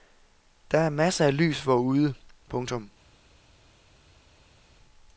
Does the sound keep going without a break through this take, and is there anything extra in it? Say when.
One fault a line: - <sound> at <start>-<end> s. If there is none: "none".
none